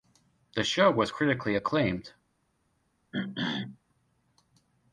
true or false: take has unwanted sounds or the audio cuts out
true